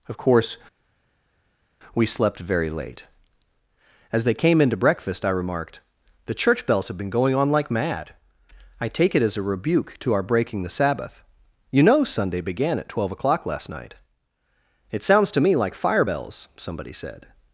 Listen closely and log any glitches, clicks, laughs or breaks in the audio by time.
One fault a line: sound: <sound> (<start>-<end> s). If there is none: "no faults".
no faults